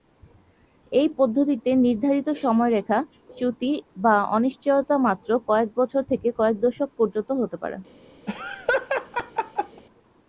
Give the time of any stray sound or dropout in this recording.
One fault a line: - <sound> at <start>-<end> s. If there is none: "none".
- laugh at 8.3-9.8 s